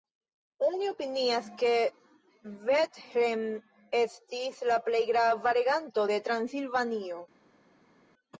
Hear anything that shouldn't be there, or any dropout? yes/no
no